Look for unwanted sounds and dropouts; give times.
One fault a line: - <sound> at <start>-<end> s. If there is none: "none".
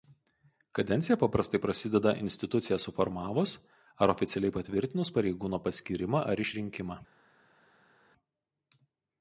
none